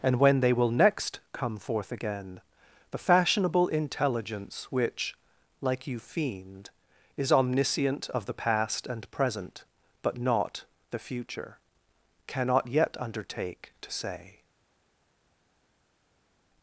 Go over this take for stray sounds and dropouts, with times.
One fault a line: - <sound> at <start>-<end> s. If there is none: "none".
none